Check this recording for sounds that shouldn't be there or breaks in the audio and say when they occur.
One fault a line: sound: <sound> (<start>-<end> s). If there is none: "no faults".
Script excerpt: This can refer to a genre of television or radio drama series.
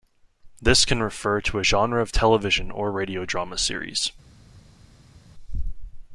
no faults